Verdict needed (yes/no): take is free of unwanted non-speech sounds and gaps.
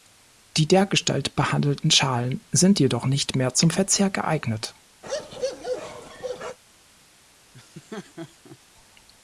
no